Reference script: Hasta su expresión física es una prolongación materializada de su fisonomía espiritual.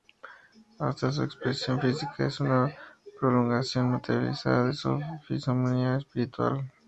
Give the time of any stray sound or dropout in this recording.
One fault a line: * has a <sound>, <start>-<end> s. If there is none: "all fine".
all fine